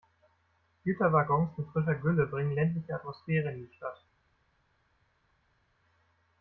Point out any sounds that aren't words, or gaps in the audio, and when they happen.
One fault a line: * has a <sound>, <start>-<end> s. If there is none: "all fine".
all fine